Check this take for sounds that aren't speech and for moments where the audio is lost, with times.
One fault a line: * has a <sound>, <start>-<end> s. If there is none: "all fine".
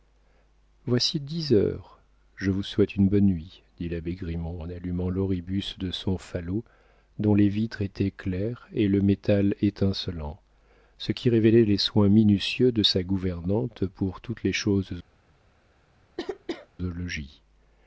* has a cough, 16.2-16.7 s